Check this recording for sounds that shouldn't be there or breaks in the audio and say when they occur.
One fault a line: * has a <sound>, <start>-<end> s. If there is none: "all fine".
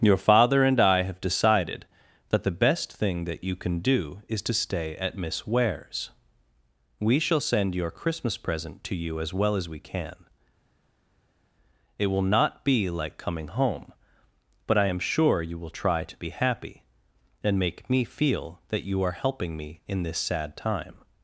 all fine